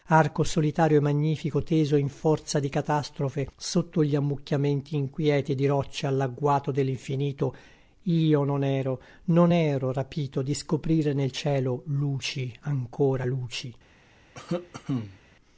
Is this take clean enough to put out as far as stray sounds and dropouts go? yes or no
no